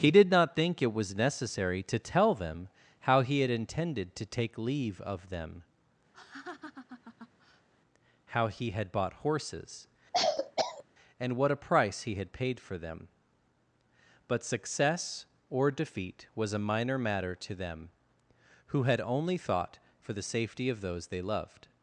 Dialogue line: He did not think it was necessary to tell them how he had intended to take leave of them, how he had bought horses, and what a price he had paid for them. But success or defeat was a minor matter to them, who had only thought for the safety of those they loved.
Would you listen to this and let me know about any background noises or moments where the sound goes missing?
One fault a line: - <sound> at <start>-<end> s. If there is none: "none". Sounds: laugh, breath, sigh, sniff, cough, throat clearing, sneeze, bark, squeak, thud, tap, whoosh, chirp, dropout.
- laugh at 6.1-7.7 s
- cough at 10.1-10.8 s